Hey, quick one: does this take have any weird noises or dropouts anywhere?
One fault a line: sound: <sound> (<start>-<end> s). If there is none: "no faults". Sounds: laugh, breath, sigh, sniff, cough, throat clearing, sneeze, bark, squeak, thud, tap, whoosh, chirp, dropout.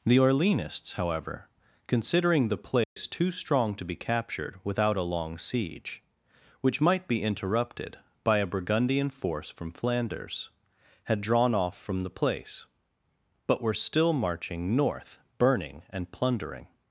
sound: dropout (2.8-3.0 s)